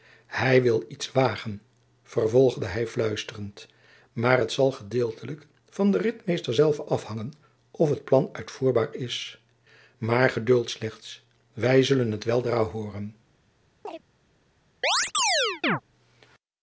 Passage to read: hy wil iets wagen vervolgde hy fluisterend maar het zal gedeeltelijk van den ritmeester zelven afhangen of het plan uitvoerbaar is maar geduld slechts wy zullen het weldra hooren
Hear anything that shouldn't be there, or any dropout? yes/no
yes